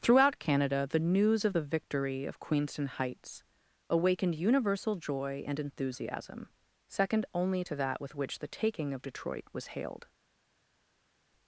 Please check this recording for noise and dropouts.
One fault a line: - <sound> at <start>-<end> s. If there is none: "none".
none